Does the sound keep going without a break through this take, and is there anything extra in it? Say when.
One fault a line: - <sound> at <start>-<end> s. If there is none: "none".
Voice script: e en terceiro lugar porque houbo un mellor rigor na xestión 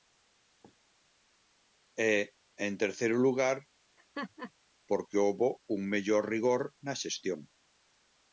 - laugh at 4.0-4.5 s